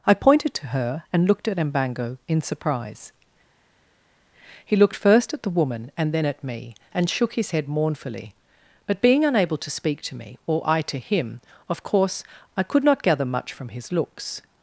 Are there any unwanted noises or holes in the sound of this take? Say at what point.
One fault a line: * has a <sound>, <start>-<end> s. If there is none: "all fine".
all fine